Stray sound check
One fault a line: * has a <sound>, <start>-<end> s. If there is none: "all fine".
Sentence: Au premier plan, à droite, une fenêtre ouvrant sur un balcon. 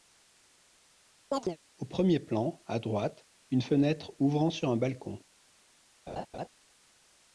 * has a chirp, 1.3-1.6 s
* has a laugh, 6.1-6.5 s